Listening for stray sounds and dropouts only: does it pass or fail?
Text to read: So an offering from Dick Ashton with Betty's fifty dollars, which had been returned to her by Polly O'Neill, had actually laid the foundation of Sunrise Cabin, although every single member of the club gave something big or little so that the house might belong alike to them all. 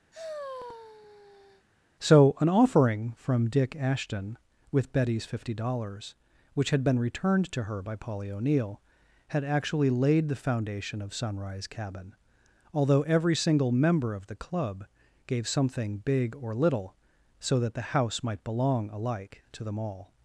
fail